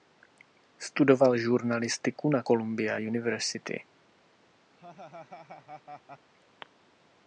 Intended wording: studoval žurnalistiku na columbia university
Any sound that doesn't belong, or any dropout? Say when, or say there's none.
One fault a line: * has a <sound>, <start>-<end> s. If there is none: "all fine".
* has a laugh, 4.8-6.3 s